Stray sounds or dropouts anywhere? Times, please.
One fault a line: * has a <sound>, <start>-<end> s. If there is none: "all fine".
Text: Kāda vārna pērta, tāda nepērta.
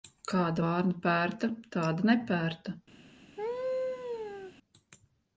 * has a laugh, 3.4-4.5 s